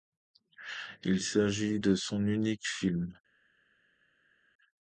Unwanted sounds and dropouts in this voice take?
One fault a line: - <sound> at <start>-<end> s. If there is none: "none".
none